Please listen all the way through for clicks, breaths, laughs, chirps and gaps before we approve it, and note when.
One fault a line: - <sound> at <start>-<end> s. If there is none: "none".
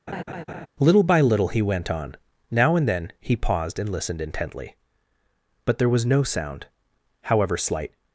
- laugh at 0.1-0.7 s